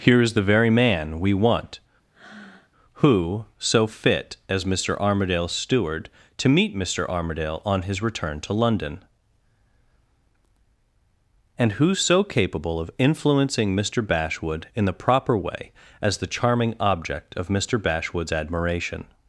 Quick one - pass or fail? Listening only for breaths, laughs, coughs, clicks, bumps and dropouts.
fail